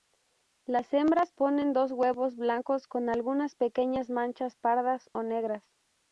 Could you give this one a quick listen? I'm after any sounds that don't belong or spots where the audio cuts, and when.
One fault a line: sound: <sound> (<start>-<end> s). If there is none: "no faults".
no faults